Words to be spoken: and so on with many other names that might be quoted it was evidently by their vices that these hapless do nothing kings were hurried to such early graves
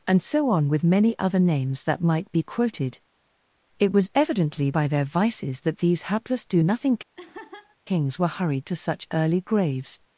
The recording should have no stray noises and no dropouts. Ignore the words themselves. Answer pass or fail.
fail